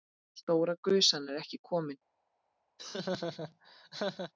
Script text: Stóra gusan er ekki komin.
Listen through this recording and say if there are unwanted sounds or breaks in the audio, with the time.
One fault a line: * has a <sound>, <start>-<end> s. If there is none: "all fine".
* has a laugh, 2.8-4.3 s